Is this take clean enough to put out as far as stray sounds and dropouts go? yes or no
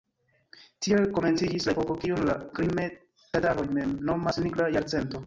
yes